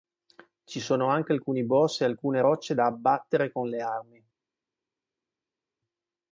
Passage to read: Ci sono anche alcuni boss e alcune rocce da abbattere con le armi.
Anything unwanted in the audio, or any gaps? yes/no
no